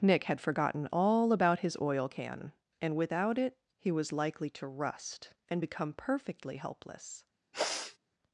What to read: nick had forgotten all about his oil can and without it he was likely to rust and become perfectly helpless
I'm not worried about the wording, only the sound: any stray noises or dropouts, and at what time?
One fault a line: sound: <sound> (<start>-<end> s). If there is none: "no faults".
sound: sniff (7.5-8.0 s)